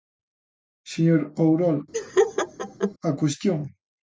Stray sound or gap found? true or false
true